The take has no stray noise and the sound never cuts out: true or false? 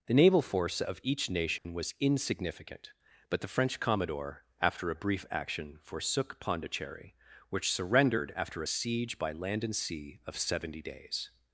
false